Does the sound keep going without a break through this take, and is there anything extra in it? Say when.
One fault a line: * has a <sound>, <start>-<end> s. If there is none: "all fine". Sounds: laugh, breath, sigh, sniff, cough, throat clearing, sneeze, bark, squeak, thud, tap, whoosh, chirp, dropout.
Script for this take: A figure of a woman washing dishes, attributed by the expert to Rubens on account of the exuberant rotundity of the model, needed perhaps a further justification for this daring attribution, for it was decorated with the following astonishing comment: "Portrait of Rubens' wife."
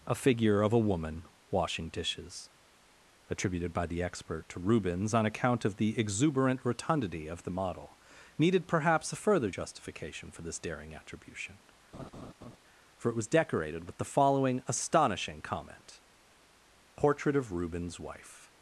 * has a laugh, 11.9-12.6 s